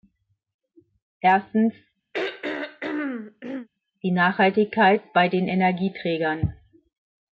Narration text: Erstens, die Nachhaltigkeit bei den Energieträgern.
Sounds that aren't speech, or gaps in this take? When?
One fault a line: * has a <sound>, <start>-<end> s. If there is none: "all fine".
* has a throat clearing, 2.1-3.7 s